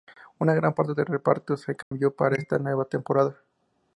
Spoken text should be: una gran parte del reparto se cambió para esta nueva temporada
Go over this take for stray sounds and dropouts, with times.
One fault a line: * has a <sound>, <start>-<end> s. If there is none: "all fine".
* has a dropout, 1.8-1.9 s